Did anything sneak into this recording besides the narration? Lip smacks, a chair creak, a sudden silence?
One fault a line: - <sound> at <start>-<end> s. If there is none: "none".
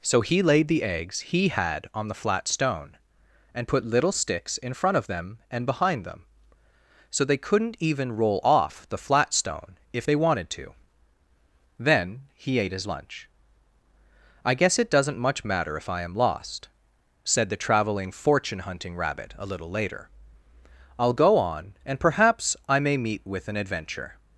none